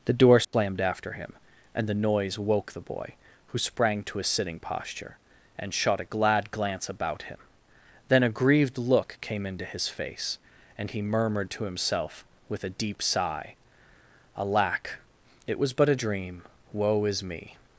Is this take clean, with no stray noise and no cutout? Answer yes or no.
no